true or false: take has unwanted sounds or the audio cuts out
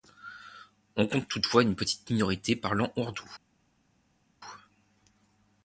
false